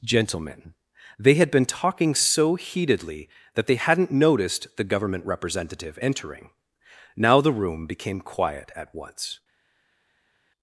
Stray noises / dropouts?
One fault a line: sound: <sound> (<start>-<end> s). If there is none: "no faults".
no faults